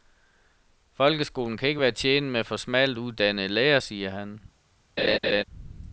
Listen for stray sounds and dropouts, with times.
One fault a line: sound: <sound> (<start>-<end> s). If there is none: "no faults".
sound: laugh (5.0-5.4 s)